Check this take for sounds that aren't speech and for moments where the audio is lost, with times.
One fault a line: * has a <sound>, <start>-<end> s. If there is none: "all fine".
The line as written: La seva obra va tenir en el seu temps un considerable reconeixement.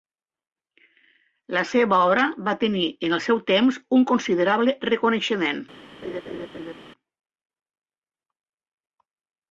* has a laugh, 6.0-6.7 s